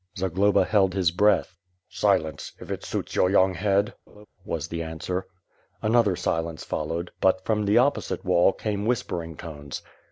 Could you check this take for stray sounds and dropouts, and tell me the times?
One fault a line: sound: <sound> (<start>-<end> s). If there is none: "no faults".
sound: laugh (4.1-4.3 s)